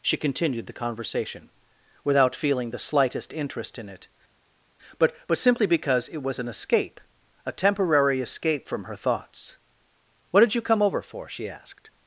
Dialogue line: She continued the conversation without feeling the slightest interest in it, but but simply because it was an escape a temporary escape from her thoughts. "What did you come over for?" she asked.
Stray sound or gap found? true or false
false